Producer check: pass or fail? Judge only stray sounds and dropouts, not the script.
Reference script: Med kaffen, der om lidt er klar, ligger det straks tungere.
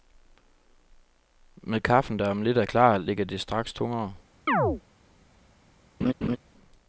fail